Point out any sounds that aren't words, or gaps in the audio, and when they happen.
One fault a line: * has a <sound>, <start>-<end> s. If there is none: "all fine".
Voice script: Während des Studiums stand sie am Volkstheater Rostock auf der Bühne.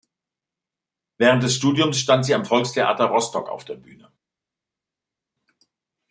all fine